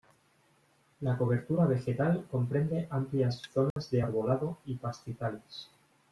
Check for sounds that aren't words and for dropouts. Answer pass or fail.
fail